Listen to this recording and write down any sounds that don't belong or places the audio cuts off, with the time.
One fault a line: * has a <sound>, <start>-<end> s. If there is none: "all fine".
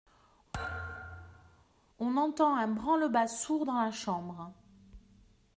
* has a thud, 0.5-1.6 s